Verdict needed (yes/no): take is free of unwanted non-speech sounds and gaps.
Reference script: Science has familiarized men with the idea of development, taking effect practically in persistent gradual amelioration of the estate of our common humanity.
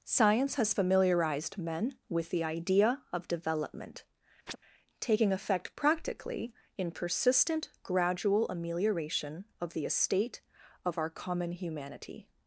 no